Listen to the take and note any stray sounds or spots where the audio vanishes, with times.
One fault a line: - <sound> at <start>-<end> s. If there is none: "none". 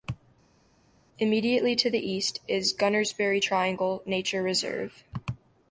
none